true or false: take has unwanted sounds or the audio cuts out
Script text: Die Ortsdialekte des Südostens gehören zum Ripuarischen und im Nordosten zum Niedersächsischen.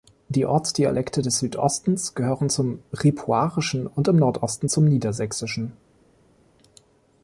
false